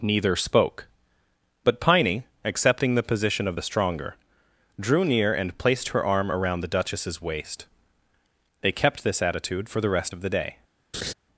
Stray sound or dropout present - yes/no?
yes